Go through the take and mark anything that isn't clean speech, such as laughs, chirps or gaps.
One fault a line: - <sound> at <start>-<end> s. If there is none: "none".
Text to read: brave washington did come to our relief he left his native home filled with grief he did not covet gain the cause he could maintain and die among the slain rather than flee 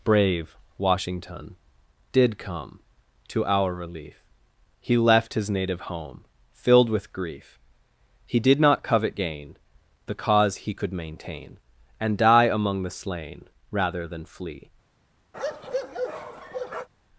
- bark at 15.3-16.9 s